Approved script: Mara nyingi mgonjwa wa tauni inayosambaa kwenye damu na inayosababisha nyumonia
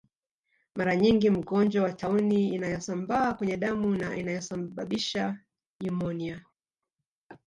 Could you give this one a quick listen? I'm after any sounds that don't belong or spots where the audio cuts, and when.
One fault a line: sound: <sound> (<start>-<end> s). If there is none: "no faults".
no faults